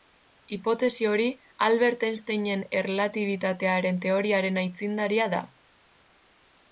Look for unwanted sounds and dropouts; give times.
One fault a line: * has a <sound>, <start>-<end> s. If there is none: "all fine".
all fine